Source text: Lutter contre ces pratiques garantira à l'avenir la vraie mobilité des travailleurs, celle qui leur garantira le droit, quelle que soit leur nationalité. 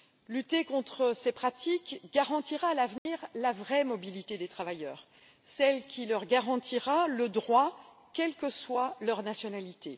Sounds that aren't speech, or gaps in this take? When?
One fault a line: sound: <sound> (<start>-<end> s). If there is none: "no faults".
sound: dropout (3.0-3.1 s)